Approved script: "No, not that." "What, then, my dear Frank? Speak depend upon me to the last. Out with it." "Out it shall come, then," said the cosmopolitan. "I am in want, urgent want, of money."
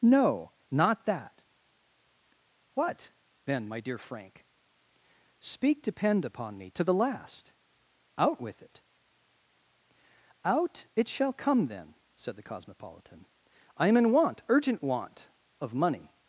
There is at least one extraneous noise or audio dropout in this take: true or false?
false